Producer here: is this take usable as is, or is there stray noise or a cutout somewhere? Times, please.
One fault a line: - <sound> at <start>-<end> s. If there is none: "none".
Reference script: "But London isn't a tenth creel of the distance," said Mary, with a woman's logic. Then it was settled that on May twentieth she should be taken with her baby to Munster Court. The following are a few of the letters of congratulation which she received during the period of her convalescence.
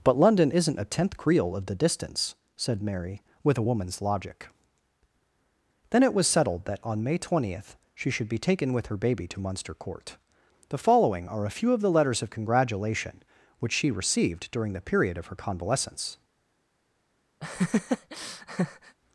- laugh at 17.4-19.0 s